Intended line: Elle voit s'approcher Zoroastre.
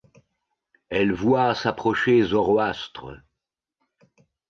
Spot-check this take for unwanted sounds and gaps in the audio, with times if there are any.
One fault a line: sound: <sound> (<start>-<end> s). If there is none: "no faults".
no faults